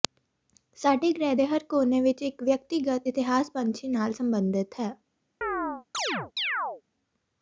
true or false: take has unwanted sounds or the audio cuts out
true